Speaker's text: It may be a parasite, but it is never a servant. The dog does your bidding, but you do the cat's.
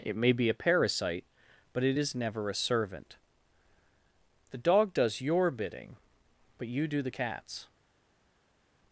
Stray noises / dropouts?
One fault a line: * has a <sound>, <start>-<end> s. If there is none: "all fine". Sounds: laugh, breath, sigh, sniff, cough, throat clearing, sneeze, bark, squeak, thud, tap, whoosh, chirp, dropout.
all fine